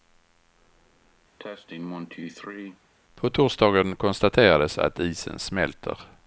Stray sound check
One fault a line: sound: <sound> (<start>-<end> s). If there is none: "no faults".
sound: cough (1.4-2.8 s)